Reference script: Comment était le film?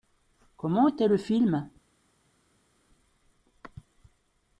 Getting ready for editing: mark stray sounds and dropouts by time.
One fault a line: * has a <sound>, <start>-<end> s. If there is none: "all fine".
all fine